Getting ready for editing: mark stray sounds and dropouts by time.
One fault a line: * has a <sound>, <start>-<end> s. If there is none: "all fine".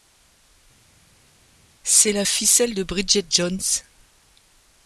all fine